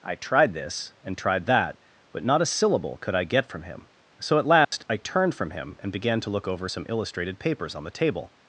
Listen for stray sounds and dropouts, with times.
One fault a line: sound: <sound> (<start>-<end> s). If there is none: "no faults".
sound: dropout (4.6-4.7 s)